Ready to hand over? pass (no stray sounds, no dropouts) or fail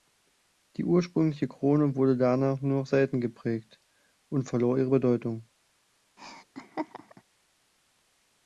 fail